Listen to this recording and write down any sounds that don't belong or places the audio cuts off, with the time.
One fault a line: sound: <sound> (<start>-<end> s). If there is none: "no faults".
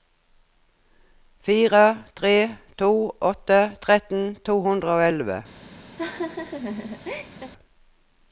sound: laugh (6.0-7.5 s)